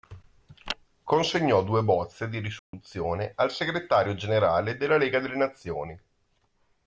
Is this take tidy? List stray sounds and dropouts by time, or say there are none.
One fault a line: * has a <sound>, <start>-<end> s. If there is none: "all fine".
* has a dropout, 2.6-2.7 s